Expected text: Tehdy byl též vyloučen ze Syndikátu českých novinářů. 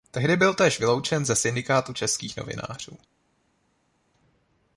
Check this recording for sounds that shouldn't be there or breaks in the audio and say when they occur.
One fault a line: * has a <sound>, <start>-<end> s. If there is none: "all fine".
all fine